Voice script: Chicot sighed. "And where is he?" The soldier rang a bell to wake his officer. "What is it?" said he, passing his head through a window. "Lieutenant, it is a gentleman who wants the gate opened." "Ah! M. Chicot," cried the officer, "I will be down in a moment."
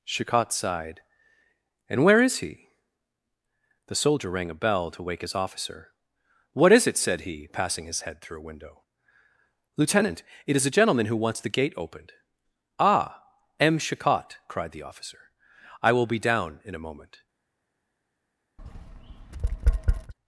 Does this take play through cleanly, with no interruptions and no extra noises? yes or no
no